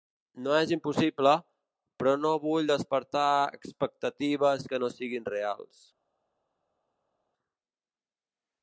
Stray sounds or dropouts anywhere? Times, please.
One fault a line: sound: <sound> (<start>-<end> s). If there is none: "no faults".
no faults